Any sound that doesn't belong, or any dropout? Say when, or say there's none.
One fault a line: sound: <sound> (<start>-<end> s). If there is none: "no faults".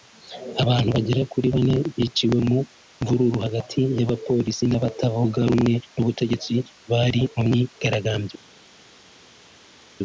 no faults